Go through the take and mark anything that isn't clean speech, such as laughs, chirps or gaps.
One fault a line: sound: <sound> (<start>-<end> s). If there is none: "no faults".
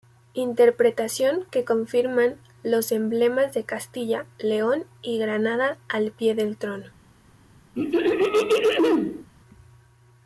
sound: throat clearing (7.7-9.3 s)